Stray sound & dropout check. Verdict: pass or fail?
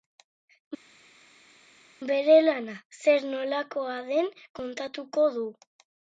pass